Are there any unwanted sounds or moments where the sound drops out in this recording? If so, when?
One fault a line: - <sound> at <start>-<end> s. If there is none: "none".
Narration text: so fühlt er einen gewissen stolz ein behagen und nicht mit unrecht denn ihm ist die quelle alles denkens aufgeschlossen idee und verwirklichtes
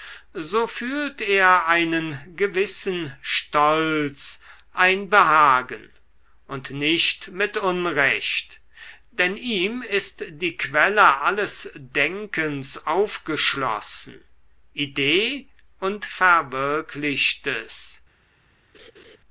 - laugh at 18.7-19.2 s